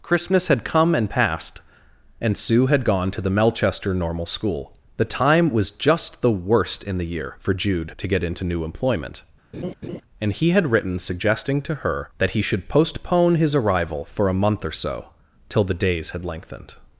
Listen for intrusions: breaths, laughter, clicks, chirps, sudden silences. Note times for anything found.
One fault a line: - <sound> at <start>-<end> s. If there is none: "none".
- laugh at 9.5-10.0 s